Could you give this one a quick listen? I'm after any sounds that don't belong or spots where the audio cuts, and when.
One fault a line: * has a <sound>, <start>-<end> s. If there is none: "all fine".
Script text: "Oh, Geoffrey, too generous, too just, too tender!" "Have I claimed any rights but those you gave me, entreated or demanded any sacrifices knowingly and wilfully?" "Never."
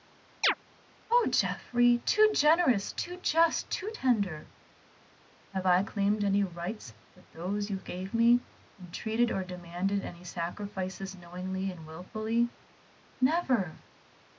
* has a chirp, 0.4-0.5 s